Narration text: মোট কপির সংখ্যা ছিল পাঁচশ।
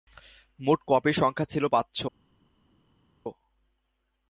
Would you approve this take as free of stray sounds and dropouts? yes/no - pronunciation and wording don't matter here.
yes